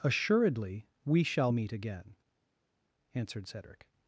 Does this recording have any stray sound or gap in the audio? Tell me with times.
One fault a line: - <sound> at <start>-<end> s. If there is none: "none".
none